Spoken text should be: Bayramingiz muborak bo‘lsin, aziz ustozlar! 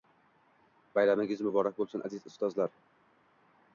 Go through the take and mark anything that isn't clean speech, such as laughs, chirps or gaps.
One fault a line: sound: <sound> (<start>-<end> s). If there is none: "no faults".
no faults